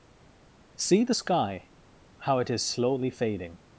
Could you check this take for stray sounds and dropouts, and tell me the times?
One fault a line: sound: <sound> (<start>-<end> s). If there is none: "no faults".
no faults